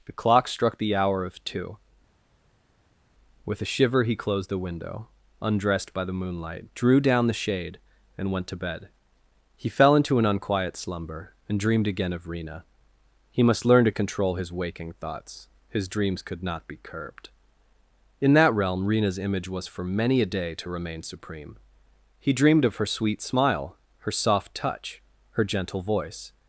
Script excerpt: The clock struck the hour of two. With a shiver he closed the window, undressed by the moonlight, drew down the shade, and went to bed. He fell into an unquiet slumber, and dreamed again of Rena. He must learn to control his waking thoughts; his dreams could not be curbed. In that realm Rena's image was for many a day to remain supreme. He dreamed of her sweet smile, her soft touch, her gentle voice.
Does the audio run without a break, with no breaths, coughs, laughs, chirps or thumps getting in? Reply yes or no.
yes